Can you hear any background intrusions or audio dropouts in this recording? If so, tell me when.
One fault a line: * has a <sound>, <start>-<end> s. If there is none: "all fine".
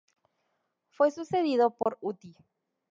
* has a dropout, 1.8-1.9 s